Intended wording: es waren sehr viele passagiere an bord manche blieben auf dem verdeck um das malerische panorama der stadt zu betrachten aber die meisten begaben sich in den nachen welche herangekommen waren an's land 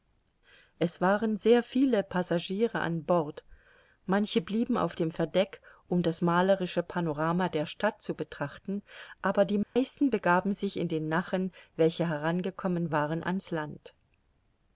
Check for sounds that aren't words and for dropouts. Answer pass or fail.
fail